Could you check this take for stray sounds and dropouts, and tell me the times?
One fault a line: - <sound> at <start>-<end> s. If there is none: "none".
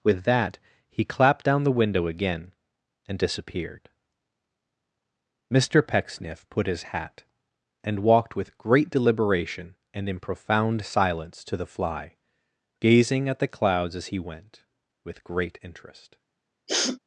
- sniff at 16.7-17.0 s